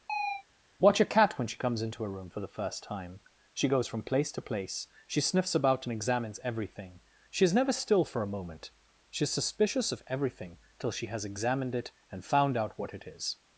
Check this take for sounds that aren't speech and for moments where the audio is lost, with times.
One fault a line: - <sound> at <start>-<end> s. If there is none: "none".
- chirp at 0.1-0.4 s